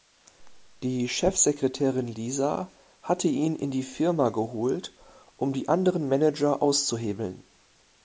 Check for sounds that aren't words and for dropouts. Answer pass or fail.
pass